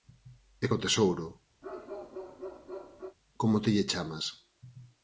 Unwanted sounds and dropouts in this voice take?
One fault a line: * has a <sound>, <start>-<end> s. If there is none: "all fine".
* has a bark, 1.6-3.2 s